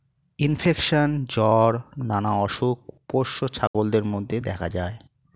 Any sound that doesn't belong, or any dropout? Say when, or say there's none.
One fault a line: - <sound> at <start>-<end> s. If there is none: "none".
- dropout at 3.7-3.7 s